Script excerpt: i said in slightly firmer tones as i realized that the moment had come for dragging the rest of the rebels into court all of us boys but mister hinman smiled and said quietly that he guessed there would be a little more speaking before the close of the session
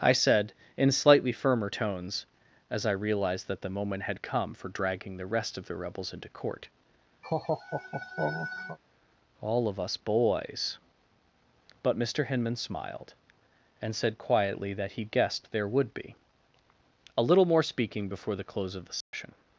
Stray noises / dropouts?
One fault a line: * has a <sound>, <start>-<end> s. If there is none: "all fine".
* has a laugh, 7.2-8.8 s
* has a dropout, 19.0-19.1 s